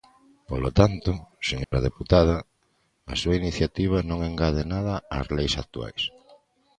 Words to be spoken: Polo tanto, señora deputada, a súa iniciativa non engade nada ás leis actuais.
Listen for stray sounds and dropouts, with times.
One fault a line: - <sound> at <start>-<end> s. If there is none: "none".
- dropout at 1.6-1.7 s